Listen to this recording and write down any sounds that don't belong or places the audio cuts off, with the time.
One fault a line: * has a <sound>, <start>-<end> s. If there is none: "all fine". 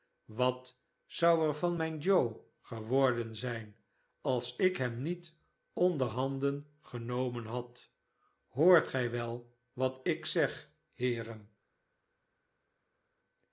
all fine